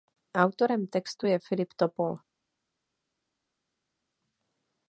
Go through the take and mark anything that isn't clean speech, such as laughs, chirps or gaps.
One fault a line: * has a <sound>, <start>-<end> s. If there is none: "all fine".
all fine